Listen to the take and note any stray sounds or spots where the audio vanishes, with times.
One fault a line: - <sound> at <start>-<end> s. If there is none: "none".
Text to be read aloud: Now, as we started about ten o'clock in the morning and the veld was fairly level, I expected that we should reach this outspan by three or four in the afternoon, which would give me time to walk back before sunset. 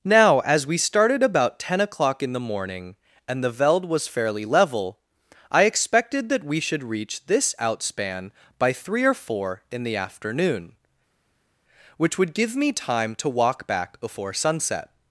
none